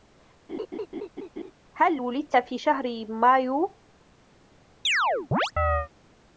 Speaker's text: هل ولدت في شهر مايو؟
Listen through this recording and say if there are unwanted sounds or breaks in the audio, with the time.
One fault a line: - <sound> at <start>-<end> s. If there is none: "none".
- laugh at 0.5-1.5 s
- chirp at 4.8-5.9 s